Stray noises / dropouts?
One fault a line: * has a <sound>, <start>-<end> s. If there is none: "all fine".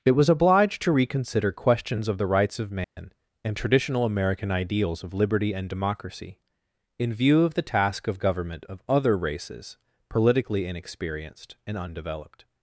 * has a dropout, 2.8-3.0 s